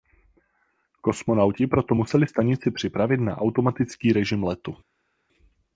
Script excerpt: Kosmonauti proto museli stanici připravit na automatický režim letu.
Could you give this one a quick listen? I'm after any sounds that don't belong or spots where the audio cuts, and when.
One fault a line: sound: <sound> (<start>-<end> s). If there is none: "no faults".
no faults